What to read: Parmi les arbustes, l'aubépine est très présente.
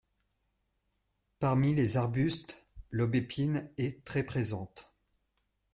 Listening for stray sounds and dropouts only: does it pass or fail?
pass